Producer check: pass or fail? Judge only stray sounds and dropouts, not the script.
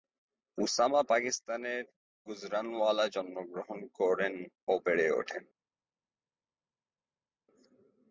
pass